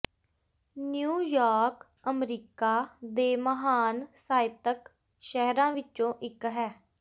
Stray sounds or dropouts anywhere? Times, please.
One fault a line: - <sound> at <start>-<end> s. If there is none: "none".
none